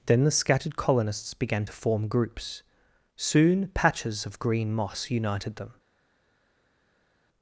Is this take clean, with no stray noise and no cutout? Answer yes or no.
yes